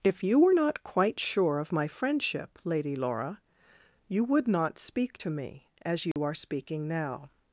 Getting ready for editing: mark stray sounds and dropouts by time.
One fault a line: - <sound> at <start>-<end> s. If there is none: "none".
- dropout at 6.1-6.2 s